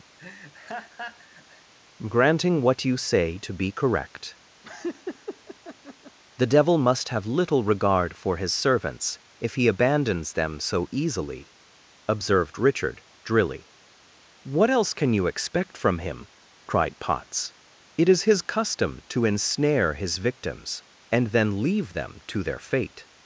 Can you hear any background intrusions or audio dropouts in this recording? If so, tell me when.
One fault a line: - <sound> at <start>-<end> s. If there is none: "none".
- laugh at 0.2-1.7 s
- laugh at 4.6-6.2 s